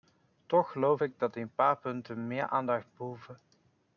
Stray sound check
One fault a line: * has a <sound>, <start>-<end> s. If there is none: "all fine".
all fine